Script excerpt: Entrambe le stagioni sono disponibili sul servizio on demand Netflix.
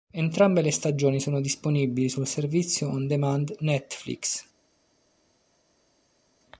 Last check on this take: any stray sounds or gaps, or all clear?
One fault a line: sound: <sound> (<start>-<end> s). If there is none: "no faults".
no faults